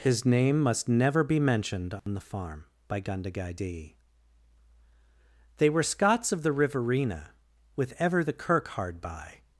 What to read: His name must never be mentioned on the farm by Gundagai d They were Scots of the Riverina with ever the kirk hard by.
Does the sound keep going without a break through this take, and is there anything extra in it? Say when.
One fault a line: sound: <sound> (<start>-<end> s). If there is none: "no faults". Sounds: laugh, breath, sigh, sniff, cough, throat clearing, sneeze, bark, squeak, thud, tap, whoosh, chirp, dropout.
sound: dropout (2.0-2.1 s)